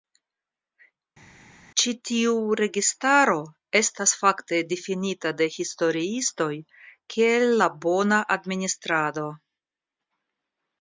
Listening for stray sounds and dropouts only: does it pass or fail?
pass